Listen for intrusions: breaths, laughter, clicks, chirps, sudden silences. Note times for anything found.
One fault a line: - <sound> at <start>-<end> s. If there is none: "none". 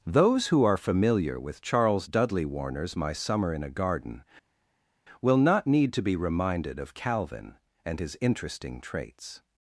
none